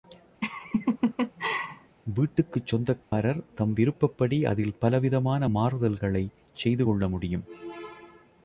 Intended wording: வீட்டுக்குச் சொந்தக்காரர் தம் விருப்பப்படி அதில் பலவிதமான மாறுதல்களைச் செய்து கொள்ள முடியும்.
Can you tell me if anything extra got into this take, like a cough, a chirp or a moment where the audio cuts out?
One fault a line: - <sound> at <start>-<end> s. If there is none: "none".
- laugh at 0.4-2.0 s
- dropout at 3.0-3.1 s